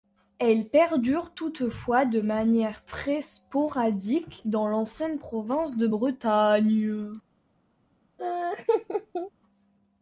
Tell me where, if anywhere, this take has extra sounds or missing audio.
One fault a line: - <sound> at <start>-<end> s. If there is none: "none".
- laugh at 8.2-9.3 s